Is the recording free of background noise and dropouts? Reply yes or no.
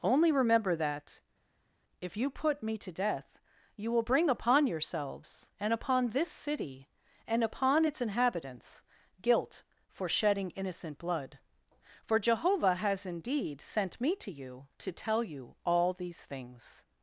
yes